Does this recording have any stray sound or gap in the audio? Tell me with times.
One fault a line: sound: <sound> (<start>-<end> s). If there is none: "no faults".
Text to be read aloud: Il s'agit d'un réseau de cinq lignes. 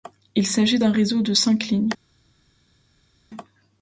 no faults